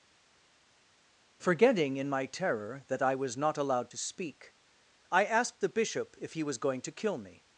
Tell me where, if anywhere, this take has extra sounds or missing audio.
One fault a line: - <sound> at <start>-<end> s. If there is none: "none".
none